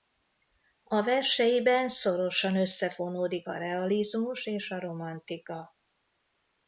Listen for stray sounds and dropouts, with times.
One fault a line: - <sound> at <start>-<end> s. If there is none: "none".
none